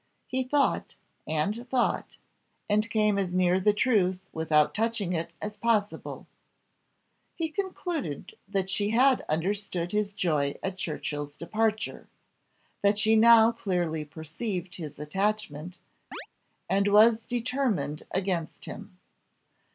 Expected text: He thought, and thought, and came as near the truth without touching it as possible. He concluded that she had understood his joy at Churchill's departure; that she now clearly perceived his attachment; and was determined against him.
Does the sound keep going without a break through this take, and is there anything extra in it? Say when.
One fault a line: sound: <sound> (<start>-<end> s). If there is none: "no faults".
sound: chirp (16.1-16.3 s)